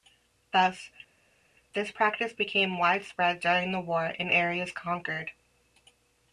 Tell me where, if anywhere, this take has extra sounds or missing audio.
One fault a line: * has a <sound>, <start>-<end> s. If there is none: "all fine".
all fine